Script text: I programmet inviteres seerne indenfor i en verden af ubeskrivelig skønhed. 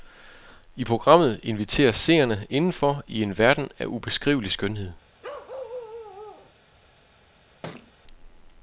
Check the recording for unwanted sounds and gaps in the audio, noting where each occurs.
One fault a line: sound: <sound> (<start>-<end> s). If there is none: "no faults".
sound: bark (5.2-6.5 s)
sound: thud (7.6-7.9 s)